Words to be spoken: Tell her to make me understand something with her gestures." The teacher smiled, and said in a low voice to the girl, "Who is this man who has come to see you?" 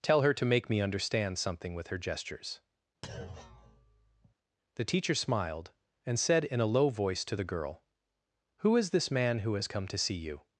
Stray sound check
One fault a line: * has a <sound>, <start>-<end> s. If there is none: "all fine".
* has a thud, 3.0-4.3 s